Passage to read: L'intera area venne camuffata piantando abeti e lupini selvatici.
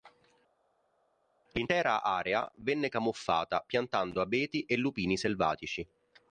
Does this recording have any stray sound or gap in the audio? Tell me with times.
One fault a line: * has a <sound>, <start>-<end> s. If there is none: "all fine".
all fine